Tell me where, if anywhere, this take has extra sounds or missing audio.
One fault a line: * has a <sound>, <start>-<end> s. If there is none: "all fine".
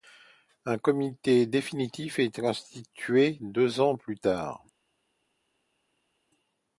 all fine